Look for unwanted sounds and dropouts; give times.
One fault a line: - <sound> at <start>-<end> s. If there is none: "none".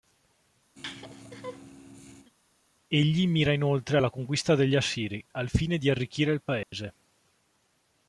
- laugh at 0.8-2.3 s
- dropout at 6.6-6.7 s